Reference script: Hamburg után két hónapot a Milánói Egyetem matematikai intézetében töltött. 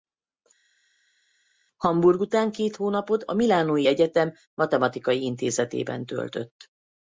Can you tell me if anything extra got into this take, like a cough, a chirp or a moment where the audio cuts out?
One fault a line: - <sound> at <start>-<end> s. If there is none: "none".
none